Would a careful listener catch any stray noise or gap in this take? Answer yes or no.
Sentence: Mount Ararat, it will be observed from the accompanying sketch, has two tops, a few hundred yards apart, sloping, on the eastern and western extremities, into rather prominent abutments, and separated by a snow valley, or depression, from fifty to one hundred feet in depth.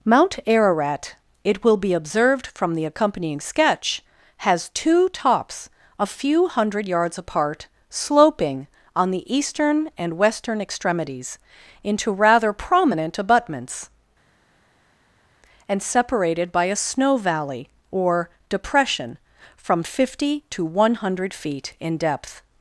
no